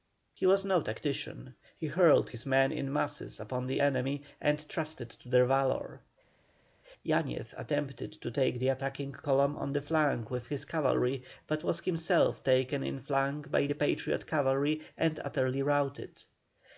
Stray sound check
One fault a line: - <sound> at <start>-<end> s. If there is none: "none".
none